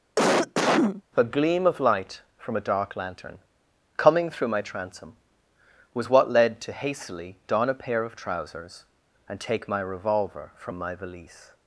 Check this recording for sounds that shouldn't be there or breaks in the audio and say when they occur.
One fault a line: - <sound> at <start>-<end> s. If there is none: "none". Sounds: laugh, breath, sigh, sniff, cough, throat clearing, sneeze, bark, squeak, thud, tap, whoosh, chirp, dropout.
- cough at 0.2-1.0 s